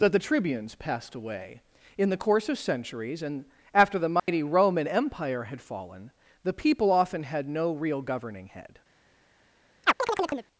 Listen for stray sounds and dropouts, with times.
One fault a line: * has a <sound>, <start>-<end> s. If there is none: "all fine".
* has a dropout, 4.2-4.3 s
* has a chirp, 9.8-10.5 s